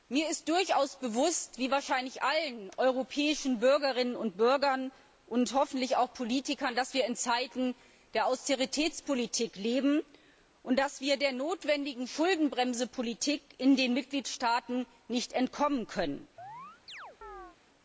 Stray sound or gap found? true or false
true